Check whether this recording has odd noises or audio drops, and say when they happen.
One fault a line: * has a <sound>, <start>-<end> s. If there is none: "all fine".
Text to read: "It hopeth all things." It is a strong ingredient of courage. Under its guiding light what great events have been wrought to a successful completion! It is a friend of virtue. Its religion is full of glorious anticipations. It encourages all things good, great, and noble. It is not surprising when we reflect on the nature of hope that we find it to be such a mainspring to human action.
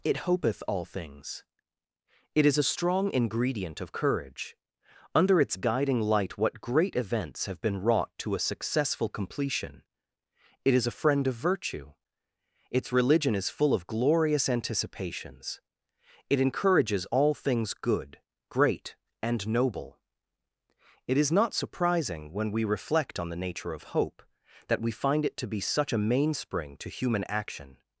all fine